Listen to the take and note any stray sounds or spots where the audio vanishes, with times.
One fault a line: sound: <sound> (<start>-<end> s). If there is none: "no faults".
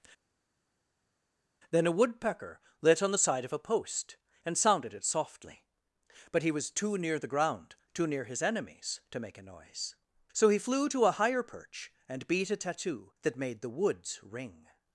no faults